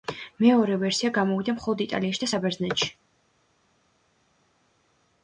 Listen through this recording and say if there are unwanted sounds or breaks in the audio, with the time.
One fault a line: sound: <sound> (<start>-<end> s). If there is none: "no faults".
no faults